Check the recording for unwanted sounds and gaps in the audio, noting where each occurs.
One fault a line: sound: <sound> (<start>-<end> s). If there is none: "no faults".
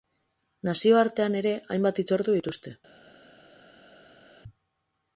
no faults